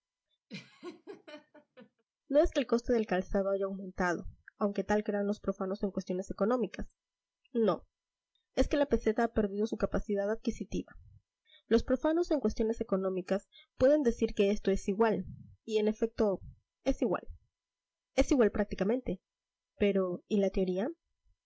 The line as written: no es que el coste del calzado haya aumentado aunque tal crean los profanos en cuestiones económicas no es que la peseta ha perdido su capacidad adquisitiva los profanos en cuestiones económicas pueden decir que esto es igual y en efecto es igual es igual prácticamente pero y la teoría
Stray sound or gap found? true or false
true